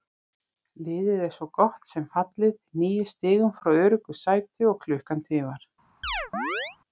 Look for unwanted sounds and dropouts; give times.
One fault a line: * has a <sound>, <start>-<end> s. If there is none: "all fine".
* has a chirp, 6.0-6.8 s